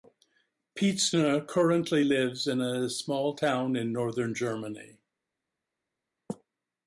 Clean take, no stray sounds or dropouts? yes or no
yes